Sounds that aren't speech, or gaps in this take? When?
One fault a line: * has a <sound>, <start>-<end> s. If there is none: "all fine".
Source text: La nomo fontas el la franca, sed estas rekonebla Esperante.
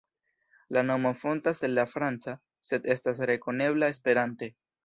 all fine